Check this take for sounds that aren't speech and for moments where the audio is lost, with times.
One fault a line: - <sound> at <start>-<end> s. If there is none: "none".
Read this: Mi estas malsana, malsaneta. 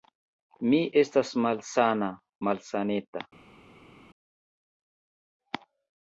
none